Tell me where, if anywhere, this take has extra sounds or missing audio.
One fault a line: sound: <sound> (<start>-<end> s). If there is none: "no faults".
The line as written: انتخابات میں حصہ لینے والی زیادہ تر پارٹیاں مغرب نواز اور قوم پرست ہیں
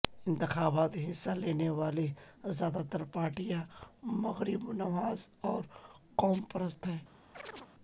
sound: chirp (7.3-7.7 s)